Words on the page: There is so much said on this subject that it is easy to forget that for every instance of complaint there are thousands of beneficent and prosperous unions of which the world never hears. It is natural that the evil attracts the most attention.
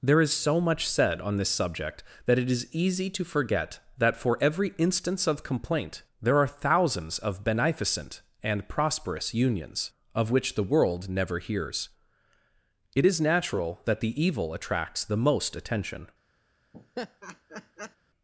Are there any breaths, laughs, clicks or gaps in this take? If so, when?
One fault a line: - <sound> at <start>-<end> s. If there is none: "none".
- laugh at 16.7-18.0 s